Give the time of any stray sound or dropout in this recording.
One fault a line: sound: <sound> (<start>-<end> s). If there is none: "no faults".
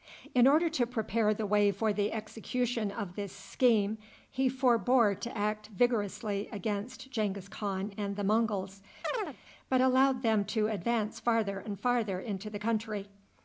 sound: chirp (9.0-9.4 s)